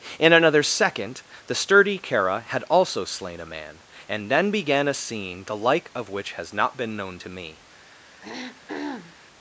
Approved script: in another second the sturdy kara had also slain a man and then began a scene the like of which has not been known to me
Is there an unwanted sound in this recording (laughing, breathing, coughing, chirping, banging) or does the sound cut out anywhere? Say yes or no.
yes